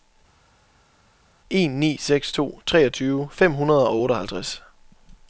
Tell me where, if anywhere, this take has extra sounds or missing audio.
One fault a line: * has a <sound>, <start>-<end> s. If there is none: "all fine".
all fine